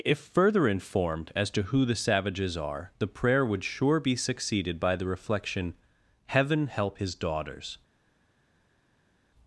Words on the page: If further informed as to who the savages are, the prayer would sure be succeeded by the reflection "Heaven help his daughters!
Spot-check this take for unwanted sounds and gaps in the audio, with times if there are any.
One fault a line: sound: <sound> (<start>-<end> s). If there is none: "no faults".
no faults